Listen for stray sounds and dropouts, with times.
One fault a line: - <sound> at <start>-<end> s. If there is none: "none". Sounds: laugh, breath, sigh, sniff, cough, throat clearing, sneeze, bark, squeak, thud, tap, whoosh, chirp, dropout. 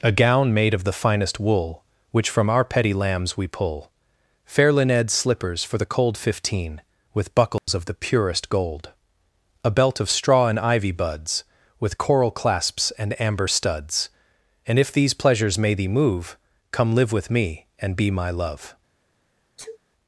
- dropout at 7.6-7.7 s
- sneeze at 19.6-19.8 s